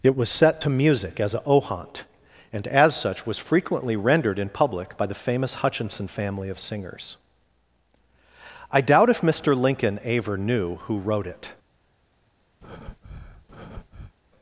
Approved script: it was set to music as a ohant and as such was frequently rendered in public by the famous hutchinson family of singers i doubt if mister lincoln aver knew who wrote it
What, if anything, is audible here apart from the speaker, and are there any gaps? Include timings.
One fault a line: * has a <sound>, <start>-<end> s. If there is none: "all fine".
* has a breath, 12.6-14.1 s